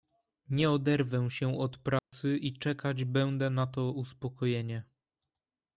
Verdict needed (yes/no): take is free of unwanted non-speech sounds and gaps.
no